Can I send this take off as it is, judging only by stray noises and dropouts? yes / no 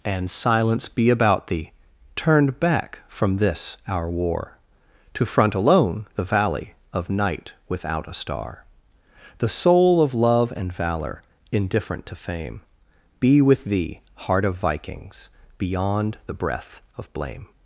yes